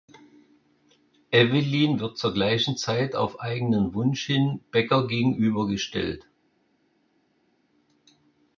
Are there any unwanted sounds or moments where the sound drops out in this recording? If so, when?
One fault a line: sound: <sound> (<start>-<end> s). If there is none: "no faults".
no faults